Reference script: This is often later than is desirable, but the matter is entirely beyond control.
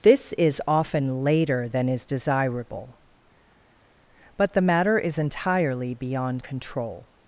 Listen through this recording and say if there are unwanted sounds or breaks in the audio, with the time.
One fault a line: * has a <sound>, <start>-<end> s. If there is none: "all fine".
all fine